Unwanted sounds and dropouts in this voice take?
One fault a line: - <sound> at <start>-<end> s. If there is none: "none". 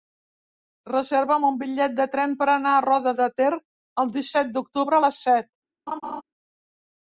- laugh at 5.9-6.2 s